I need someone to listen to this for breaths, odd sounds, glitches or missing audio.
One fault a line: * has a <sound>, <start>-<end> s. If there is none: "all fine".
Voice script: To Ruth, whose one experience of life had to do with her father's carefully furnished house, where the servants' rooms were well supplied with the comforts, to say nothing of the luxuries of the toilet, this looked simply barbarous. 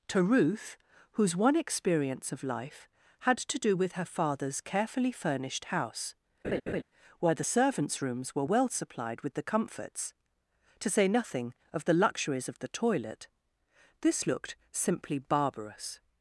* has a laugh, 6.4-6.8 s